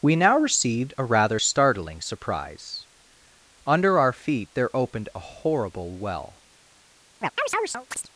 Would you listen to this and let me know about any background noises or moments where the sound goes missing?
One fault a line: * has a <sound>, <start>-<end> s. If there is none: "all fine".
* has a chirp, 7.2-8.1 s